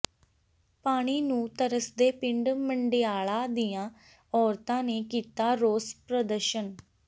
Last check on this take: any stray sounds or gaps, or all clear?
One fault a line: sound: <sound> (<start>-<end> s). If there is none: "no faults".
no faults